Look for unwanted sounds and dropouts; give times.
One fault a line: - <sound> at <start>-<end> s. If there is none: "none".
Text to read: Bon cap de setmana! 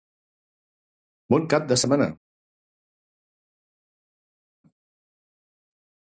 none